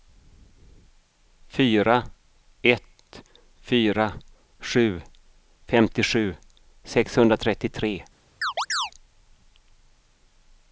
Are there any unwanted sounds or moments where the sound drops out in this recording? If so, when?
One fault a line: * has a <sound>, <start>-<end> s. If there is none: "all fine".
* has a chirp, 8.4-8.9 s